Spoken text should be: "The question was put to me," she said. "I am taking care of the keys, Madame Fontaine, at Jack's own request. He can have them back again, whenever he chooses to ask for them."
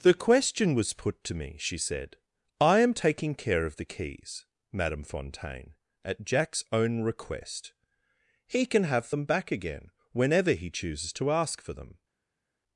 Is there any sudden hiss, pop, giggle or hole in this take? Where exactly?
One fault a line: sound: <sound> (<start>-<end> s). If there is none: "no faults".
no faults